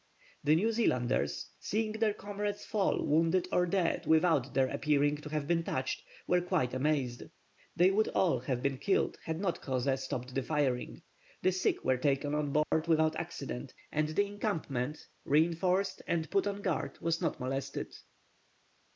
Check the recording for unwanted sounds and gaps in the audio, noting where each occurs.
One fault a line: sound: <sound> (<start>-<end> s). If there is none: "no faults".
sound: dropout (12.6-12.7 s)